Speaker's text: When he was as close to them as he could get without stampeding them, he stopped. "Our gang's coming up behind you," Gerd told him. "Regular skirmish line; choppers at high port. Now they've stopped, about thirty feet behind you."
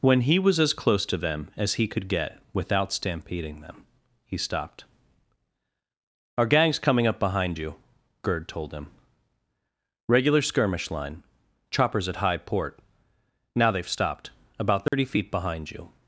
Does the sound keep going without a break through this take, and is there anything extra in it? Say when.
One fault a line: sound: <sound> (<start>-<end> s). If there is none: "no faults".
sound: dropout (14.9-14.9 s)